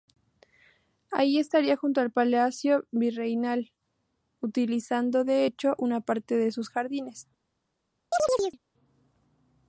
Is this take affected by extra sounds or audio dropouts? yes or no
yes